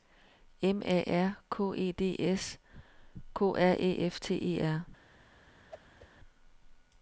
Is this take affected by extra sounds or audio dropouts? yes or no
yes